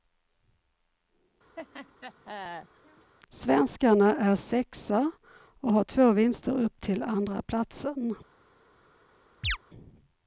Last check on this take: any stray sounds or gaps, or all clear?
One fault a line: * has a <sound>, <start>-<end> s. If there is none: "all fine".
* has a laugh, 1.6-3.1 s
* has a chirp, 9.4-9.6 s